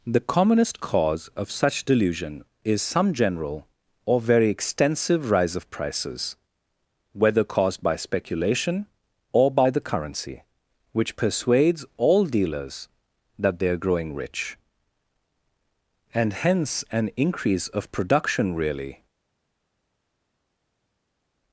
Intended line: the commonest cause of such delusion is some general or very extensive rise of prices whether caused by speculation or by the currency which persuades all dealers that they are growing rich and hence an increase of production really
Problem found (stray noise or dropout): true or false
false